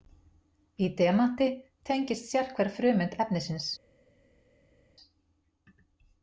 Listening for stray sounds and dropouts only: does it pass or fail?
pass